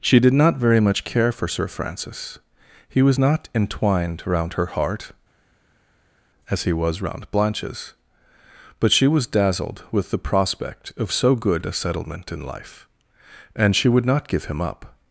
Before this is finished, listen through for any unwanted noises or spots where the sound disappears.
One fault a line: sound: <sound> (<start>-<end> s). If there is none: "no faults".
no faults